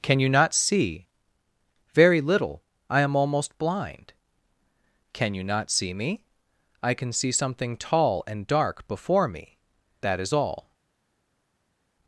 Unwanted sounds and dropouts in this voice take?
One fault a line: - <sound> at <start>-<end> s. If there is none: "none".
none